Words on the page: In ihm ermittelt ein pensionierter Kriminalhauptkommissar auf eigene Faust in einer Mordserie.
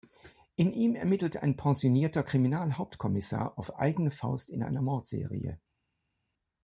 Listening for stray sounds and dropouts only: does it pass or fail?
pass